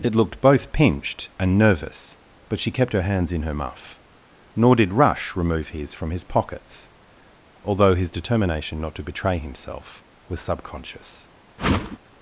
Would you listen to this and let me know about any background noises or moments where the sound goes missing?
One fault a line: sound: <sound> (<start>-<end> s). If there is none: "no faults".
sound: whoosh (11.6-12.0 s)